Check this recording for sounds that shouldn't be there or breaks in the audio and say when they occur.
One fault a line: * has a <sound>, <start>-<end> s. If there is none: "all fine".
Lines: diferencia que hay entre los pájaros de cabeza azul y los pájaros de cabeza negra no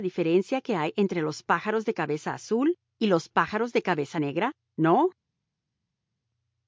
all fine